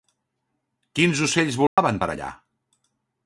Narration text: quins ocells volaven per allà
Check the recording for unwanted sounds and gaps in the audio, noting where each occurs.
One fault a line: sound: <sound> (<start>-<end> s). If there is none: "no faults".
sound: dropout (1.7-1.8 s)